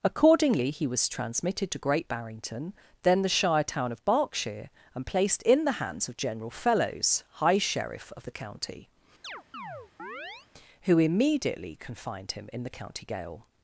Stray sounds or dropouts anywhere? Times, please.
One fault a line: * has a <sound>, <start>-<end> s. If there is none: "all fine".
* has a chirp, 9.2-10.5 s